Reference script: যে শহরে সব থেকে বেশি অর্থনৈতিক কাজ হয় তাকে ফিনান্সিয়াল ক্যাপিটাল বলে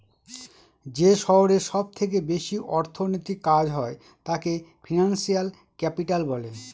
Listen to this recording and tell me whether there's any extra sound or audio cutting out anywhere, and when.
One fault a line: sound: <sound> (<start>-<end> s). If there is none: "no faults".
no faults